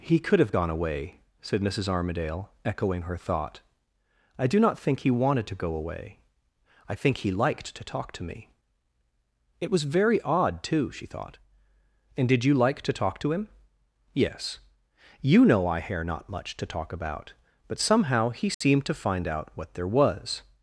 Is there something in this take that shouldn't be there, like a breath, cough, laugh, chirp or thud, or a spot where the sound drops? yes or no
yes